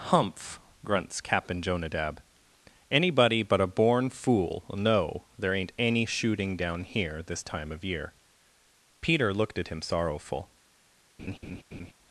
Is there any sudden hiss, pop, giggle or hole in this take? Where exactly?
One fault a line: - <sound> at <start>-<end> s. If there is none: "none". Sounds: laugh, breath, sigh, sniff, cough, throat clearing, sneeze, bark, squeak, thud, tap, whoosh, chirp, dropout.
- laugh at 11.2-11.9 s